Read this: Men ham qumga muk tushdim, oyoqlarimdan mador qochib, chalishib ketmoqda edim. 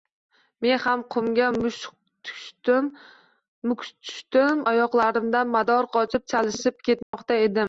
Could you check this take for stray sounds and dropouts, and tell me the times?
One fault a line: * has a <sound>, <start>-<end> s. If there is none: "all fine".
* has a dropout, 7.0-7.1 s